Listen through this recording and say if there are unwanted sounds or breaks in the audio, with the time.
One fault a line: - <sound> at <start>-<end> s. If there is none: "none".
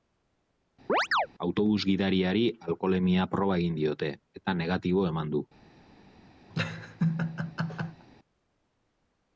- chirp at 0.9-1.3 s
- laugh at 6.5-8.1 s